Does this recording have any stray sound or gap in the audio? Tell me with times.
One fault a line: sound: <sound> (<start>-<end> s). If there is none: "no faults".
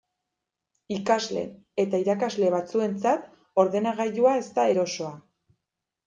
no faults